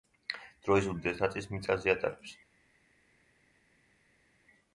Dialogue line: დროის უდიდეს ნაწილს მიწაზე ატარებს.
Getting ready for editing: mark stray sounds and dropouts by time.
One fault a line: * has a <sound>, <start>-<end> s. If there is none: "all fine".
all fine